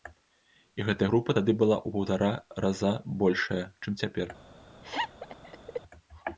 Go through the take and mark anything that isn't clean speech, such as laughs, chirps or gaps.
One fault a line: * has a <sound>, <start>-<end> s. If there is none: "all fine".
* has a laugh, 4.8-5.8 s